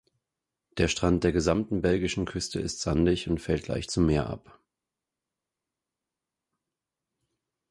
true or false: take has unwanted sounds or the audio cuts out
false